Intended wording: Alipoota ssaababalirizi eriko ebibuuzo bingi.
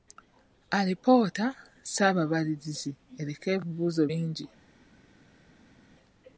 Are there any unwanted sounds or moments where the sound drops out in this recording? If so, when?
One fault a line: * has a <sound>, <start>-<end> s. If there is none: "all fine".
all fine